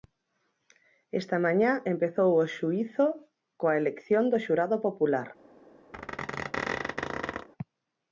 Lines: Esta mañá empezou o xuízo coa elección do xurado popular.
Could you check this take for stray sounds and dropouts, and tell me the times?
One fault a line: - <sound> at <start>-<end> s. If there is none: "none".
- squeak at 5.9-7.5 s